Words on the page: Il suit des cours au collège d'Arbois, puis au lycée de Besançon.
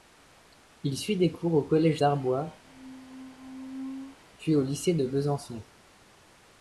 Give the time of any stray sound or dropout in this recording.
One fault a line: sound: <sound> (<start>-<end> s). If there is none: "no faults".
sound: squeak (2.6-4.2 s)